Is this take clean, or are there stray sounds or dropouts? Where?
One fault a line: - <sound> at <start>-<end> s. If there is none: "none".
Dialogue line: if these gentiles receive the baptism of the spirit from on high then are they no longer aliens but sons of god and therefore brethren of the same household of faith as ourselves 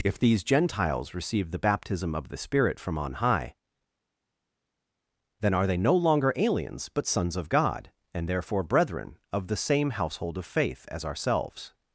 none